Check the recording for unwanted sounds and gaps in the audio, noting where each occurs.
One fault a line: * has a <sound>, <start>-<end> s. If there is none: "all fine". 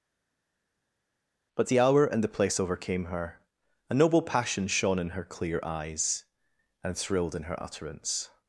all fine